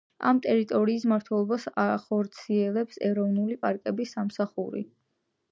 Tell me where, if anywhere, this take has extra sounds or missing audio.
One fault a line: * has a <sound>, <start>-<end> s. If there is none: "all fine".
all fine